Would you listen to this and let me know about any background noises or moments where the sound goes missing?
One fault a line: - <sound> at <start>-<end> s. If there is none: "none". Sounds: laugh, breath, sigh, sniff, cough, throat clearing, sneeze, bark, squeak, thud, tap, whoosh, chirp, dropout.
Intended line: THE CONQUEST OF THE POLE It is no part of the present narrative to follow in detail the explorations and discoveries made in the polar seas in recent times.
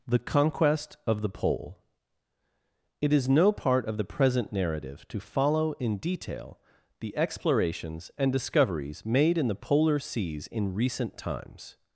none